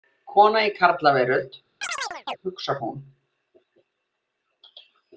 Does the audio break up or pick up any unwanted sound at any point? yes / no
yes